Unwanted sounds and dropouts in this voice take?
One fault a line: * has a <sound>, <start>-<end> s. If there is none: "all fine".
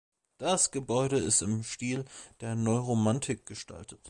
all fine